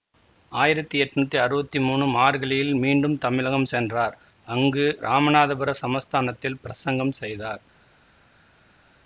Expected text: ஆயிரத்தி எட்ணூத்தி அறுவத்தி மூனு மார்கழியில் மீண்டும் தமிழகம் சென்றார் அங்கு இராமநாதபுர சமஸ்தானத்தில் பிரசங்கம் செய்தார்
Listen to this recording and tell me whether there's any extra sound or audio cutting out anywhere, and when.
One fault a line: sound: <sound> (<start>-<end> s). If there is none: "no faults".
no faults